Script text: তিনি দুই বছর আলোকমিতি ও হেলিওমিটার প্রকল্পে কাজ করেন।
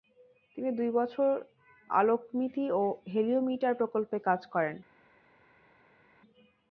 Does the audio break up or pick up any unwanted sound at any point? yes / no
no